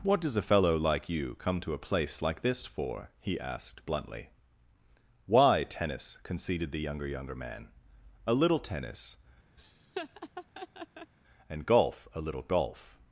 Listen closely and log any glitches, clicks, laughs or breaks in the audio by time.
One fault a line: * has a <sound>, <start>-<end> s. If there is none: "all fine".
* has a laugh, 9.6-11.1 s